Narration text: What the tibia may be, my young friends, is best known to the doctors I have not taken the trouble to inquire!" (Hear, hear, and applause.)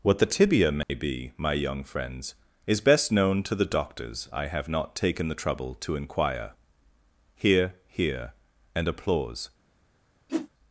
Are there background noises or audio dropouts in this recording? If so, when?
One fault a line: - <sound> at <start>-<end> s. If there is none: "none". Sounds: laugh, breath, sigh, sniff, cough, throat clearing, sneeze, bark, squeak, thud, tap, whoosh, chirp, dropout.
- dropout at 0.8-0.9 s
- whoosh at 10.3-10.5 s